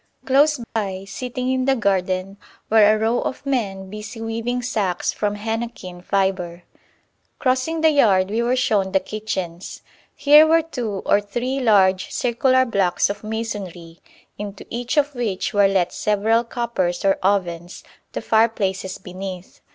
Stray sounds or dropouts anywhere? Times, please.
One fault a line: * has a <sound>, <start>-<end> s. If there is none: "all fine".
* has a dropout, 0.6-0.8 s